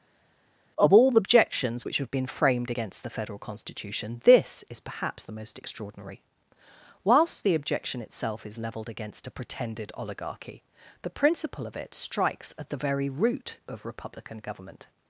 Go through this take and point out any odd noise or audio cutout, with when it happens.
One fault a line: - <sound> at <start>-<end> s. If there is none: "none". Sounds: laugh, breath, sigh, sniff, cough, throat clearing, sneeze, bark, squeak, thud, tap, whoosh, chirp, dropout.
none